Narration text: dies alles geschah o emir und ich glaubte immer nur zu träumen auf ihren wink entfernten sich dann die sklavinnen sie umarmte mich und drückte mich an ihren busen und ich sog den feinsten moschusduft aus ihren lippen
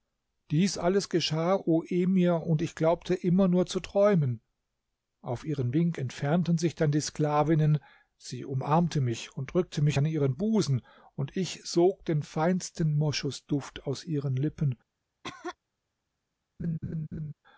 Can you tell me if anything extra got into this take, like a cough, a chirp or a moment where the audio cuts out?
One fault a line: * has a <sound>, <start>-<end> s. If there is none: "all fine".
* has a cough, 15.2-15.6 s
* has a laugh, 16.6-17.3 s